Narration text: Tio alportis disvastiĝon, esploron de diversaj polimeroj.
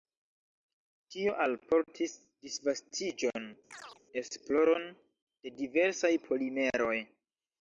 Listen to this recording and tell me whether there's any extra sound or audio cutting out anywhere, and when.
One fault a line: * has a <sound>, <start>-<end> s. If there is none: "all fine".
* has a chirp, 3.7-4.0 s